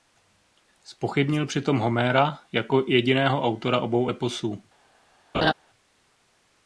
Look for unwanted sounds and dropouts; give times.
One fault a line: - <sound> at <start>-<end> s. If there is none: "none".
- laugh at 5.3-5.5 s